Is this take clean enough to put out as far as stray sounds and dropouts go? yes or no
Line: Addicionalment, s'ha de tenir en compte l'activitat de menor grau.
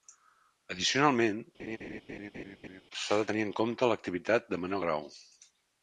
no